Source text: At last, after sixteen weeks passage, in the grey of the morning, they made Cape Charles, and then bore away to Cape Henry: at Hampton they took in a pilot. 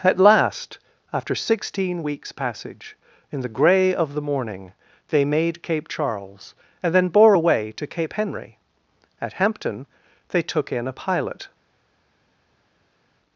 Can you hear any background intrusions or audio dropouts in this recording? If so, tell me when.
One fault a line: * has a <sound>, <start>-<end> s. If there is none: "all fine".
all fine